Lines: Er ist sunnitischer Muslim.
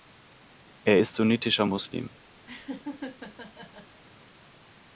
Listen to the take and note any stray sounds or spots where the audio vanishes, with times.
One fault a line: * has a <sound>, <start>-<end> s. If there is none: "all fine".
* has a laugh, 2.5-4.0 s